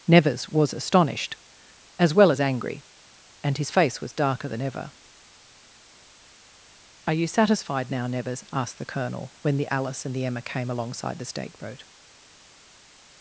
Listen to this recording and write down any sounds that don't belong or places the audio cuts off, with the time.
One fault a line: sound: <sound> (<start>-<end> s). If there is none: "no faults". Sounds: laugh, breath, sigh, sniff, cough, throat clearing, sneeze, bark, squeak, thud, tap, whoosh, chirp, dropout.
no faults